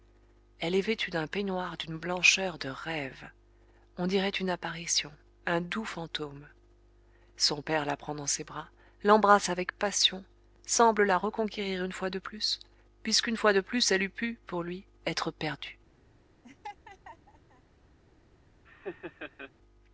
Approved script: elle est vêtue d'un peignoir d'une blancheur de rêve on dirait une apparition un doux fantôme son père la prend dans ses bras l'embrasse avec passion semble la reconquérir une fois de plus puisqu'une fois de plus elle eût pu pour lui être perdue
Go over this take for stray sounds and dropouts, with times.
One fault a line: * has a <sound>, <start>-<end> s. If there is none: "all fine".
* has a laugh, 16.4-17.6 s
* has a laugh, 18.6-19.5 s